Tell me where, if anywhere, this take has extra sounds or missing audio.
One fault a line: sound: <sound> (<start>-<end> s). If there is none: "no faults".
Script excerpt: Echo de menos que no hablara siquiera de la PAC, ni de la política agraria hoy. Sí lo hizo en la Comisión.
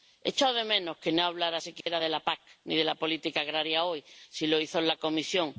sound: dropout (1.8-1.9 s)